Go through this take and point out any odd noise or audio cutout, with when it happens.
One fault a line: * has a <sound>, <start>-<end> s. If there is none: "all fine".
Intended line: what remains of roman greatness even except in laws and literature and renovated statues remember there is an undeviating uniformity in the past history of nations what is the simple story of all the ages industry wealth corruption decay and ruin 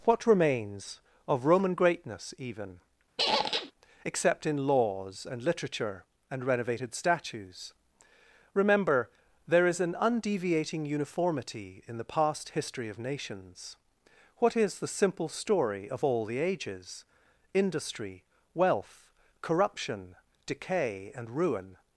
* has a squeak, 3.2-3.7 s